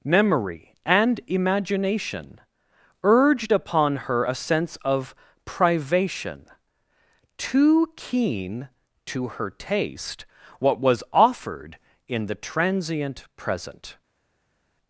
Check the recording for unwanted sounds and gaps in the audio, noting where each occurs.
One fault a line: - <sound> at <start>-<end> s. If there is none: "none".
none